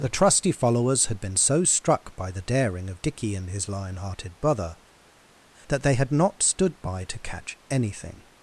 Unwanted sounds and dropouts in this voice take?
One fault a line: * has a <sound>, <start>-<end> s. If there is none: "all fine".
all fine